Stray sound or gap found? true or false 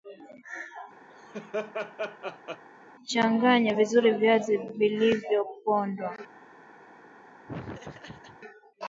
true